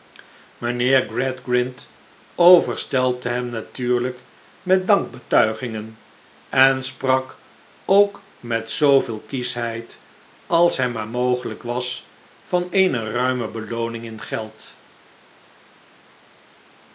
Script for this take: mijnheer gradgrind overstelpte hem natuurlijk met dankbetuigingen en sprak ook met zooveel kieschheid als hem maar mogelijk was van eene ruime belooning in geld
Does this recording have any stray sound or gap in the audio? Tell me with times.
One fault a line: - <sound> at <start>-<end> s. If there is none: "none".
none